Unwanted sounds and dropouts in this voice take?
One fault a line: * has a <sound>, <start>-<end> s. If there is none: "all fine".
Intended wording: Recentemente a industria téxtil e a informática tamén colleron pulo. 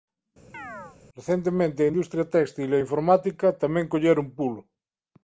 * has a chirp, 0.5-1.0 s